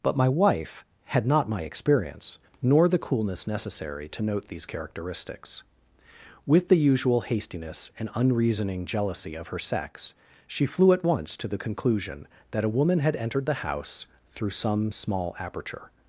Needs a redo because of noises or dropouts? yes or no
no